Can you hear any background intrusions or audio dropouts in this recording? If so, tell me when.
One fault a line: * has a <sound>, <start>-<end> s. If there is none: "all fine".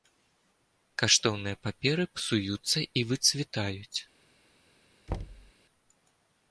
* has a thud, 5.1-5.5 s